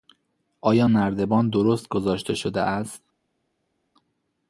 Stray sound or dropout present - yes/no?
no